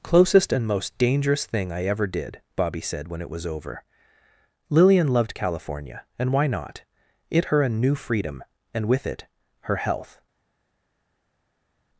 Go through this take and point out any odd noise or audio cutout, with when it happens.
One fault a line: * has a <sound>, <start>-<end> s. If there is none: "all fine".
all fine